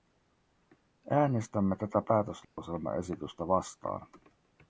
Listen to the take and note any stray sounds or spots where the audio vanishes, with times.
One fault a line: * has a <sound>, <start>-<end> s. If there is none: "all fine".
* has a dropout, 2.4-2.6 s